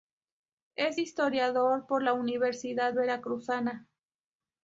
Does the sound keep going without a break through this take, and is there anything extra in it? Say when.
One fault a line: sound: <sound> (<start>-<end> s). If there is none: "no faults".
no faults